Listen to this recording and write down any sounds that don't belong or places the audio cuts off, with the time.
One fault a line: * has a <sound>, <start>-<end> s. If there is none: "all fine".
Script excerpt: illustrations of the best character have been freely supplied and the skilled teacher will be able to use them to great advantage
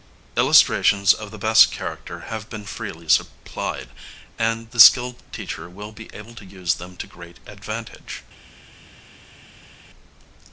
all fine